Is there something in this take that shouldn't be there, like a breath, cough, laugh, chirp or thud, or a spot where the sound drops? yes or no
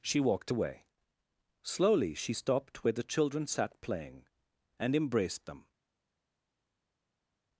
no